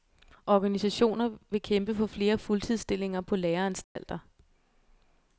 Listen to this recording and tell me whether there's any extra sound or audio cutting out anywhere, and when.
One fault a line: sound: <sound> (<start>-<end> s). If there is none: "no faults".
sound: dropout (3.8-4.0 s)